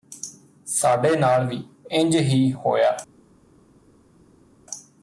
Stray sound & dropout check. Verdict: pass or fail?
pass